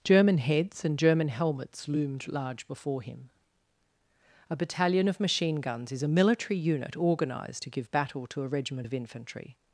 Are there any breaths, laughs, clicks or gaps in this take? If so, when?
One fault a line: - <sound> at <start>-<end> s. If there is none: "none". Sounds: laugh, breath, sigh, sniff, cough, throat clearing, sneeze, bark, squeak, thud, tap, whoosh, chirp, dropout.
none